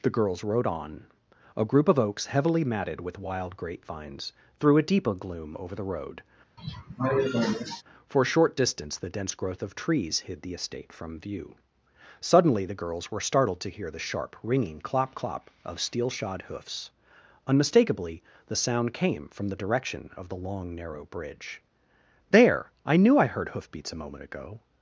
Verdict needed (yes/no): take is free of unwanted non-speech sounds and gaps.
no